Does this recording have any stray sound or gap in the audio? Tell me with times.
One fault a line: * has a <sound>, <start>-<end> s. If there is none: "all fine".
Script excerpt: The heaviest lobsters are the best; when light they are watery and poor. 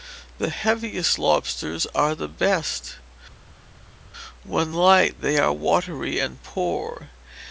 all fine